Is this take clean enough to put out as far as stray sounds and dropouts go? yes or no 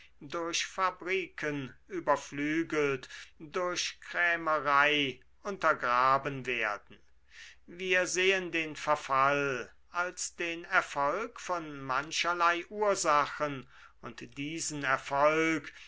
yes